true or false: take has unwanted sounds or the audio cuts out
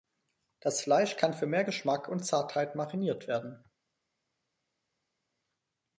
false